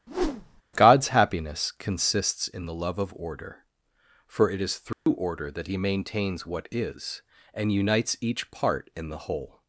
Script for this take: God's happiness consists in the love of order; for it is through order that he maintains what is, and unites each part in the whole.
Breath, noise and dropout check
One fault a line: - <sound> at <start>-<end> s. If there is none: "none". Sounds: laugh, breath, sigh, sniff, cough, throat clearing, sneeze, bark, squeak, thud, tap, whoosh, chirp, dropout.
- whoosh at 0.1-0.6 s
- dropout at 4.9-5.1 s